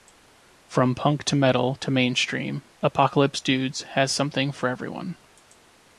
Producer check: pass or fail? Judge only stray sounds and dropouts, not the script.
pass